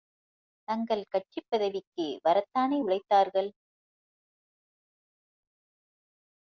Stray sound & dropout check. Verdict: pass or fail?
pass